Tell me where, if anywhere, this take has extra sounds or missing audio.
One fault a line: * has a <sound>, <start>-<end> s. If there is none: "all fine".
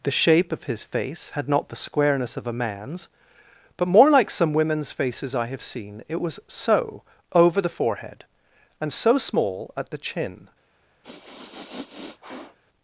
* has a sniff, 11.0-12.6 s